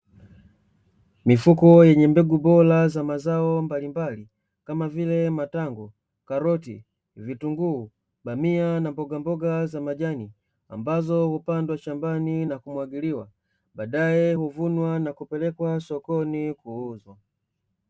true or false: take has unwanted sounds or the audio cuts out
false